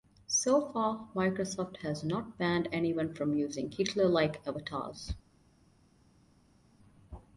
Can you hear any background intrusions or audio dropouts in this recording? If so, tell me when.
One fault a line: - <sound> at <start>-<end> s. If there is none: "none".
none